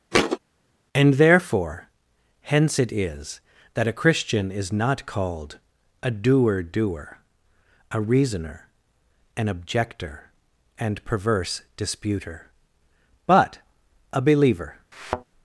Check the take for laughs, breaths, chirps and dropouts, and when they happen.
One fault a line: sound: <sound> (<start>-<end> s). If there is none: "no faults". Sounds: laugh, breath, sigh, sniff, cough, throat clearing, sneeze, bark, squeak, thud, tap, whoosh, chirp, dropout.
sound: thud (0.1-0.4 s)
sound: thud (14.9-15.2 s)